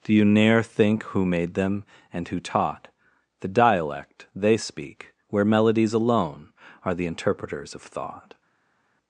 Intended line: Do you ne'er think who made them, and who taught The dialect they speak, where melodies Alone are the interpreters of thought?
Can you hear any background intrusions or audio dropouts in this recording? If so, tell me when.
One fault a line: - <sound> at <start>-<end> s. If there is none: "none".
none